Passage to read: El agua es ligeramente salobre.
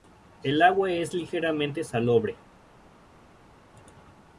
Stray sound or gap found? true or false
false